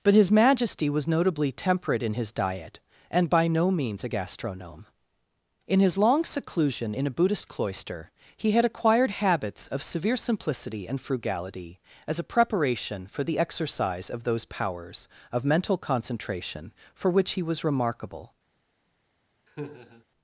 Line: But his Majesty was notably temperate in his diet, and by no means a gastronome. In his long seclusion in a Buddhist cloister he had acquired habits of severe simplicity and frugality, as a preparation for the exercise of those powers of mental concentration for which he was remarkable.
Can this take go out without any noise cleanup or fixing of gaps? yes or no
no